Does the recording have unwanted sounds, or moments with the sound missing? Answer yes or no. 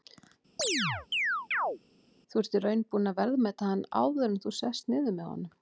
yes